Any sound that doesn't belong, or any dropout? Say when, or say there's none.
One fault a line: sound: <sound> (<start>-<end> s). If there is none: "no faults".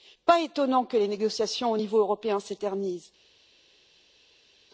no faults